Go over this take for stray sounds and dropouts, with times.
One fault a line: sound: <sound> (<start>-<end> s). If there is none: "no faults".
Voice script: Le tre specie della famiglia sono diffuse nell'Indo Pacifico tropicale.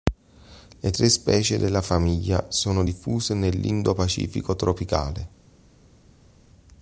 no faults